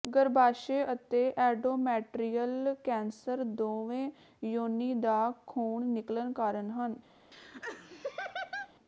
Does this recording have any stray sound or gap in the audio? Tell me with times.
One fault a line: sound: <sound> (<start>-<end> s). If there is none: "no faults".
sound: laugh (7.3-8.7 s)